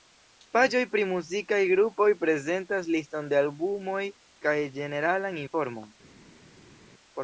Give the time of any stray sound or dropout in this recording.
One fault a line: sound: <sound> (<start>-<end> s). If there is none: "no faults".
no faults